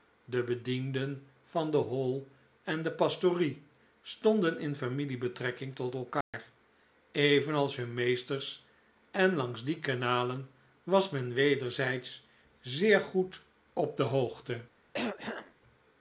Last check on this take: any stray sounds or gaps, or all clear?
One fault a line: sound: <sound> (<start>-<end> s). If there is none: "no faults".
sound: dropout (6.2-6.3 s)
sound: throat clearing (14.9-15.5 s)